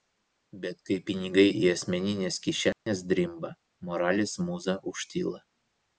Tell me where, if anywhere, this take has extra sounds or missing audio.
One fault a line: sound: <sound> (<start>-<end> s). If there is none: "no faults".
sound: dropout (2.7-2.9 s)